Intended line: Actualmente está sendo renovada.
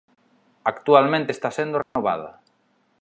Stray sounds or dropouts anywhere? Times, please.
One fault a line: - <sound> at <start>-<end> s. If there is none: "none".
- dropout at 1.8-2.0 s